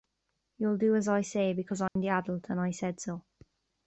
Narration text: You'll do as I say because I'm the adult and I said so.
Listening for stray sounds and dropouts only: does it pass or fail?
fail